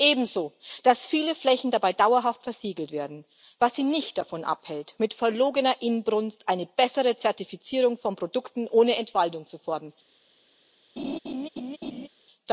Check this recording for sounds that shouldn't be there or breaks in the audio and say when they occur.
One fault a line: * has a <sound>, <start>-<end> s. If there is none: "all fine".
* has a laugh, 11.0-12.1 s